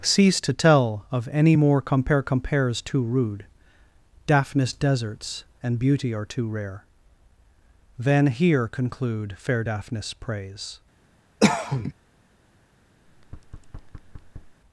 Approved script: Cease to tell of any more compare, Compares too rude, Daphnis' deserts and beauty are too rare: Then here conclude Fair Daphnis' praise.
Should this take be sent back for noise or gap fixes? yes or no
yes